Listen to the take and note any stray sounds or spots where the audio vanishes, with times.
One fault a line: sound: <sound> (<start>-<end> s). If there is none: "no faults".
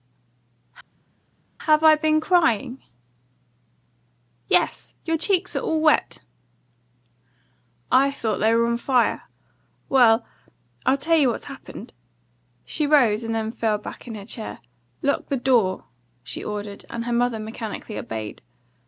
no faults